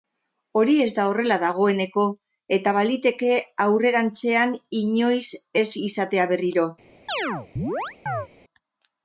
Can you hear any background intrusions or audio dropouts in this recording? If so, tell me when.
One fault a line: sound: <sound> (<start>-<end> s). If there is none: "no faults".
sound: chirp (7.1-8.3 s)